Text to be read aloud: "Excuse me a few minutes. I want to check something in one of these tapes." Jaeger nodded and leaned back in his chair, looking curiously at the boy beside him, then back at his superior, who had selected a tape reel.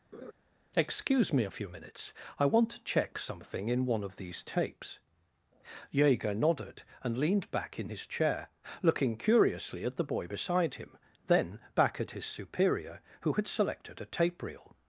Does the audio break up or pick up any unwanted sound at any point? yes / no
yes